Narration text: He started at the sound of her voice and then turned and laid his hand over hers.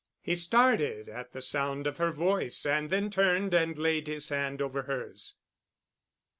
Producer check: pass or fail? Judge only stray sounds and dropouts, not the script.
pass